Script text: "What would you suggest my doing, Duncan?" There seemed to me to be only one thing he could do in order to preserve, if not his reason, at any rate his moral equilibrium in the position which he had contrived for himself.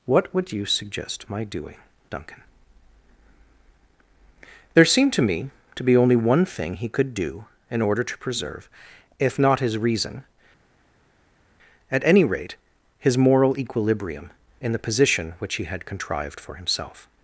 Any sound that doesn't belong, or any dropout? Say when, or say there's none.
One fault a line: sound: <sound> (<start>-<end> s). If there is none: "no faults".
no faults